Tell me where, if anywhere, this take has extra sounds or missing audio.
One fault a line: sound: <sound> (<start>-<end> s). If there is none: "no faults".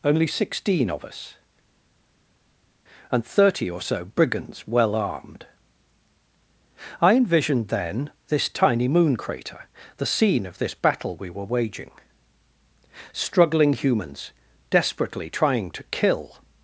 no faults